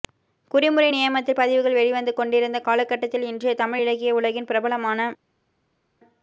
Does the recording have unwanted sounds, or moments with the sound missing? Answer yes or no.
no